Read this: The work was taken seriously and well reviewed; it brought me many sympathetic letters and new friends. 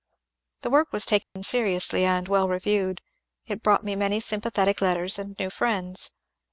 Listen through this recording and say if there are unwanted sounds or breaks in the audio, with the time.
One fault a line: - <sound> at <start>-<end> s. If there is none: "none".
- dropout at 1.2-1.4 s